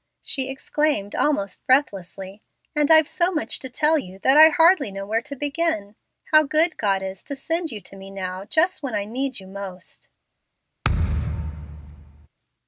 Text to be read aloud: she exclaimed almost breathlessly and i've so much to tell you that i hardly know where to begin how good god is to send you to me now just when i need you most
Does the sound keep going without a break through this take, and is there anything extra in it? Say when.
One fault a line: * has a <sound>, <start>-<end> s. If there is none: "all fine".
* has a thud, 10.8-12.3 s